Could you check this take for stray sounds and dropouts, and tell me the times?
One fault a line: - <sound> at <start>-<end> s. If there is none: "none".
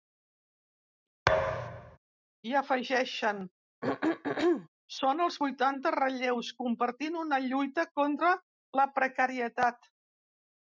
- thud at 1.3-2.0 s
- throat clearing at 3.8-4.7 s